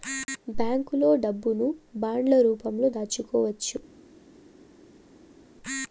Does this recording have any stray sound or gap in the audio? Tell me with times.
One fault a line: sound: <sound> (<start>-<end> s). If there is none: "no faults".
no faults